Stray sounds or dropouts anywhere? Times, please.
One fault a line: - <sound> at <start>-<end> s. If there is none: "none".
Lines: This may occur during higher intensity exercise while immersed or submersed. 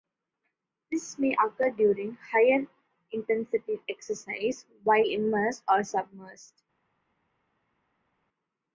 none